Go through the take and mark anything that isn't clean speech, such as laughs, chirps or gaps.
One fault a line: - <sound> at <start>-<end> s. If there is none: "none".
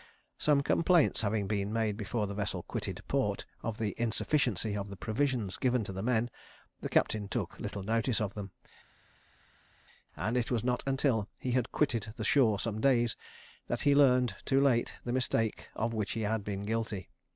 none